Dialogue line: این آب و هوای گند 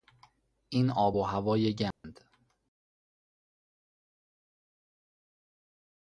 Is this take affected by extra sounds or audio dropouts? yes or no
yes